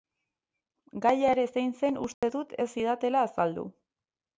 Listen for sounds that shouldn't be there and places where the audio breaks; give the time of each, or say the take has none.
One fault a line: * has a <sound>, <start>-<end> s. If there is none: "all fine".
* has a dropout, 2.1-2.2 s